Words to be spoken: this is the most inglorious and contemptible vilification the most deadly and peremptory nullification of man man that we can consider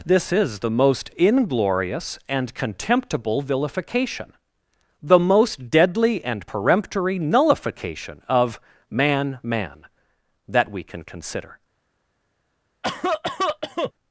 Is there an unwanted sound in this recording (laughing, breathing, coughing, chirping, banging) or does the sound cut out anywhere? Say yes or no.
yes